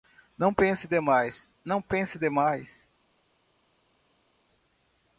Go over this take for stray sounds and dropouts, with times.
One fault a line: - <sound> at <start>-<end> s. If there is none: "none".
none